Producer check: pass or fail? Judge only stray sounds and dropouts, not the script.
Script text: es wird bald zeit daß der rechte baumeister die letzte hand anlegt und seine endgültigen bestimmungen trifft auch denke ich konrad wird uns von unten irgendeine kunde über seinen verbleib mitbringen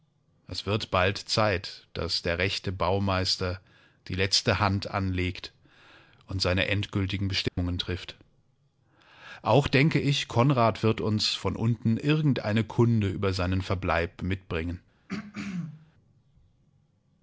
fail